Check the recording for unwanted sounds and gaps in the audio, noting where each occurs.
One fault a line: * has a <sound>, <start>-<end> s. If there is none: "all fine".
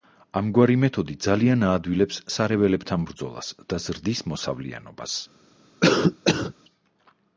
* has a cough, 5.8-6.5 s